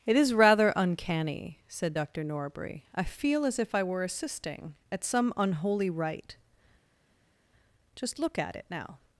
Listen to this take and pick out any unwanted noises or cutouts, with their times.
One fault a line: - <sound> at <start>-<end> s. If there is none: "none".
none